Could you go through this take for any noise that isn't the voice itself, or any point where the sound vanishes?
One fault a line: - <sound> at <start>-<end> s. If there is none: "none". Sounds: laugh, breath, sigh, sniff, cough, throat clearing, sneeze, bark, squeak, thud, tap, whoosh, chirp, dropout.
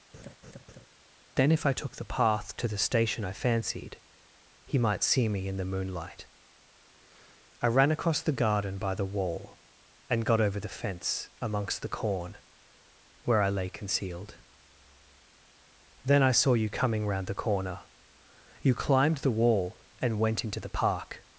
- laugh at 0.1-0.9 s